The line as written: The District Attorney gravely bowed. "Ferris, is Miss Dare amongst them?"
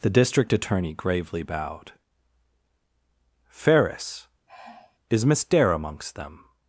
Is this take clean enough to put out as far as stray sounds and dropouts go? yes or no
no